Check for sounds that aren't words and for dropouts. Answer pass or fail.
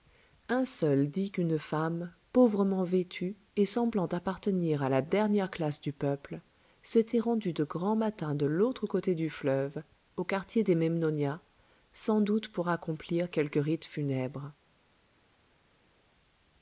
pass